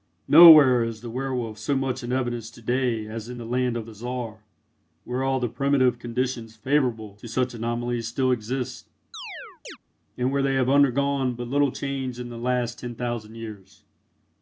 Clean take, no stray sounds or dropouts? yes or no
no